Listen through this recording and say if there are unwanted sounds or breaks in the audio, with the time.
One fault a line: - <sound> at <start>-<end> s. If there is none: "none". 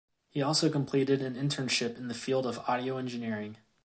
none